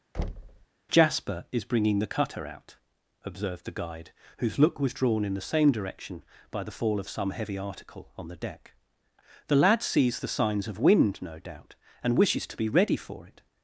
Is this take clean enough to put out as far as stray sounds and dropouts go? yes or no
no